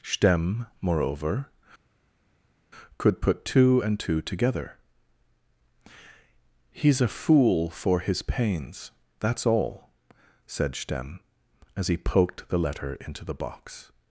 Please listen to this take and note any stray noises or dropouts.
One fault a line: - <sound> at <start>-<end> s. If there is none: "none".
none